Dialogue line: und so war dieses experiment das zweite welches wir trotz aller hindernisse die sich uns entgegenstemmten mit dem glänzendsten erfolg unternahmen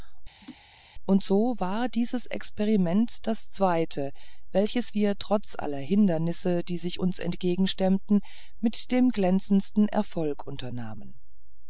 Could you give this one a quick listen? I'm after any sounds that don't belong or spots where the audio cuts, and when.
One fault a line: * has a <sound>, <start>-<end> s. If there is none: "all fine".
* has a laugh, 0.4-0.6 s